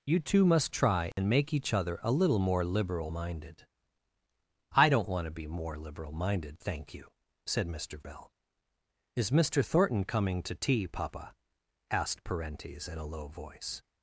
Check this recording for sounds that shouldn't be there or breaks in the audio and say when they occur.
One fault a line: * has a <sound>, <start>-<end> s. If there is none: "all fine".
* has a dropout, 1.1-1.2 s